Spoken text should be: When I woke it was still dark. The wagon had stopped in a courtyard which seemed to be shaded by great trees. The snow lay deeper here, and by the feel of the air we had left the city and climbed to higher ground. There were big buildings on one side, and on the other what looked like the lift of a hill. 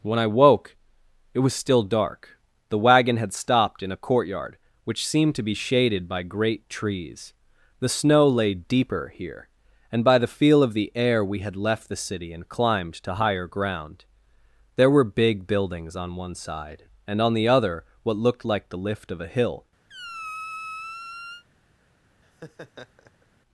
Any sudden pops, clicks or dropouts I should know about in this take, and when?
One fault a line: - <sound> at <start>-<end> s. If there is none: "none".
- squeak at 19.9-21.4 s
- laugh at 22.2-23.3 s